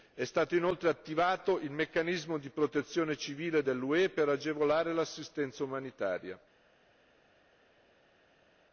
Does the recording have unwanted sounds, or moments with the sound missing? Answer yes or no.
no